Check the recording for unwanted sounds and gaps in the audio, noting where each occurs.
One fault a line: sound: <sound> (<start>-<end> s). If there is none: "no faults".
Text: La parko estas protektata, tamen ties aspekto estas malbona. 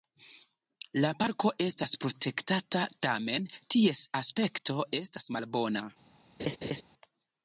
sound: laugh (6.4-6.8 s)